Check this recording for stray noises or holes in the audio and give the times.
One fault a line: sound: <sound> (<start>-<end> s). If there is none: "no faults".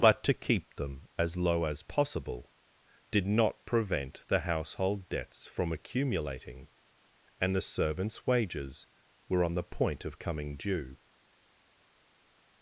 no faults